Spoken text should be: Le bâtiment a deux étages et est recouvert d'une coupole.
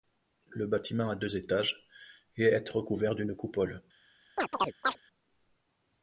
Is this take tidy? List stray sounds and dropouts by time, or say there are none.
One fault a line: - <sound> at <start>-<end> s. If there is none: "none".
- chirp at 4.4-5.0 s